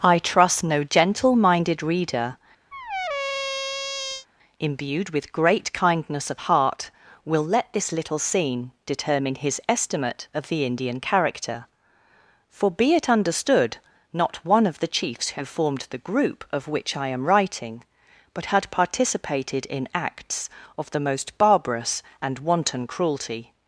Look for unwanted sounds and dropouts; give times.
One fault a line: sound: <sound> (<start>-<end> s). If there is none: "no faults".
sound: squeak (2.7-4.3 s)